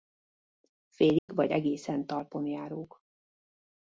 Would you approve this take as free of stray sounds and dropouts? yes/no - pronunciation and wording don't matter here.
no